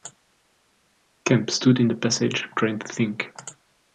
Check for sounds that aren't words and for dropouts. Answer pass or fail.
pass